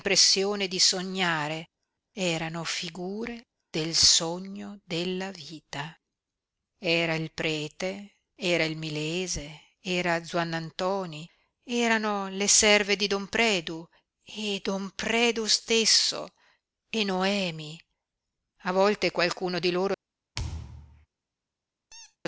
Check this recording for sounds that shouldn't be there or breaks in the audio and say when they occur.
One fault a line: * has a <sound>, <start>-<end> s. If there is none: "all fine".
* has a thud, 20.4-21.1 s
* has a squeak, 21.9-22.2 s